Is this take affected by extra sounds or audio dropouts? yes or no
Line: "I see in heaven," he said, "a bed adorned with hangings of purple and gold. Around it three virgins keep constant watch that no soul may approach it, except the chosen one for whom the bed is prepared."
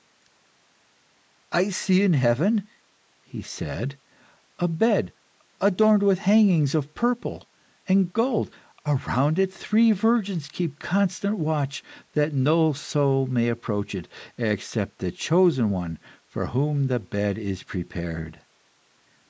no